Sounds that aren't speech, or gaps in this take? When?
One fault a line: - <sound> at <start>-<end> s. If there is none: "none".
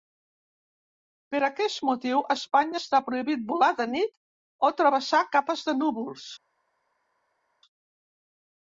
none